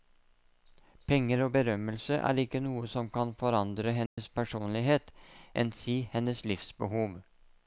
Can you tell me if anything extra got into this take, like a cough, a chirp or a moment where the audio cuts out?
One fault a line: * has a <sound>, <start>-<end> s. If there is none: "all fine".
* has a dropout, 4.1-4.2 s